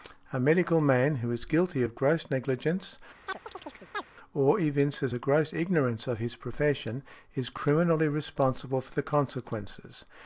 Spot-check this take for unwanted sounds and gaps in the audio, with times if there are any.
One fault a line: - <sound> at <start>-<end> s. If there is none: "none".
- chirp at 3.3-4.1 s